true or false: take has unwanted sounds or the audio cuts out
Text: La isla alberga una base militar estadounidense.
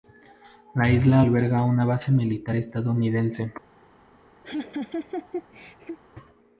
true